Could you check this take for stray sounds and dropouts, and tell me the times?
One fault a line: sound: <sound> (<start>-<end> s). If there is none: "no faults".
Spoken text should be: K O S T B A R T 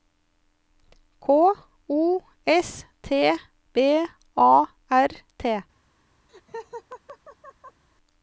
sound: laugh (6.3-7.8 s)